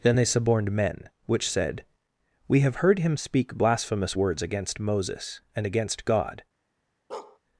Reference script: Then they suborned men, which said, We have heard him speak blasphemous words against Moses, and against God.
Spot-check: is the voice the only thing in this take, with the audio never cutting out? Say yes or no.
no